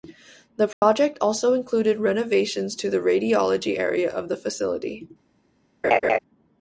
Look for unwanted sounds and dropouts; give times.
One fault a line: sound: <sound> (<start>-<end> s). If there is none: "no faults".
sound: dropout (0.7-0.8 s)
sound: laugh (5.8-6.2 s)